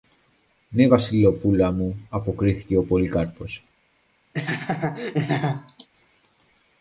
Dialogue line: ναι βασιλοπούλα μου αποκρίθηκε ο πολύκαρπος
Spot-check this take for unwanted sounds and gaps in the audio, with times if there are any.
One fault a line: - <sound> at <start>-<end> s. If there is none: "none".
- laugh at 4.3-5.9 s